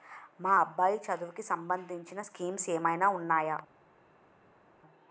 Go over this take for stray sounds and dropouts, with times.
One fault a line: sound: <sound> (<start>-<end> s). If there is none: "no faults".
no faults